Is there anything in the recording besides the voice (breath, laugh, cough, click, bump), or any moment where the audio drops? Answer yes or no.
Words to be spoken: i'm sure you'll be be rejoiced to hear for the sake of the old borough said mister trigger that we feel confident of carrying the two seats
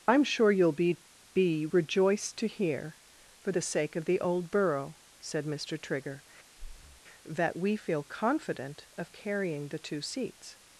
yes